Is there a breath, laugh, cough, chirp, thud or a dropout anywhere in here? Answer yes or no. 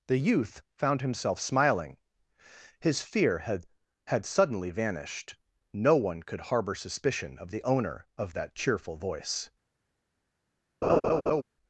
yes